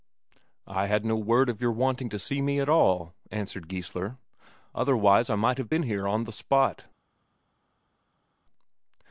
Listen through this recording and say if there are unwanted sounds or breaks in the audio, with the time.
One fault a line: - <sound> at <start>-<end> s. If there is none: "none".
none